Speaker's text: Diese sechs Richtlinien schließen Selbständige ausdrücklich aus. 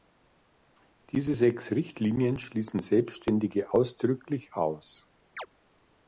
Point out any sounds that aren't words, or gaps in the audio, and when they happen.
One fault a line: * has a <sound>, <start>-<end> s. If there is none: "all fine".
* has a chirp, 5.4-5.5 s